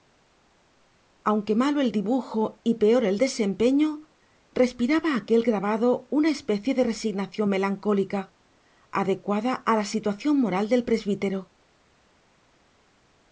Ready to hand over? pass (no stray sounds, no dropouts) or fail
pass